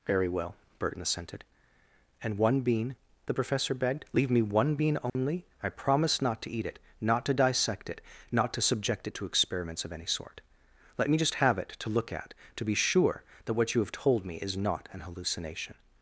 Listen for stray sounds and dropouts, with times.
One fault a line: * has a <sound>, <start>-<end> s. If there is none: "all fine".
* has a dropout, 5.1-5.2 s